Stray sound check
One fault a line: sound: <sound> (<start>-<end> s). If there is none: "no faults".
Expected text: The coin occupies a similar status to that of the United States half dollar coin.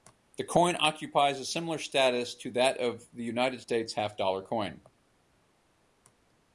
no faults